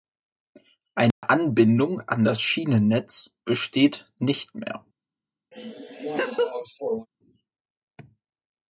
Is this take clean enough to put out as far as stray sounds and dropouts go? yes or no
no